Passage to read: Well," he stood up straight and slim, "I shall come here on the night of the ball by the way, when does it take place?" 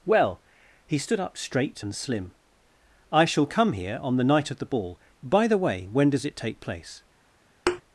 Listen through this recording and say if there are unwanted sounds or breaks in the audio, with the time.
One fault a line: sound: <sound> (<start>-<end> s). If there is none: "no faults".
sound: thud (7.7-7.8 s)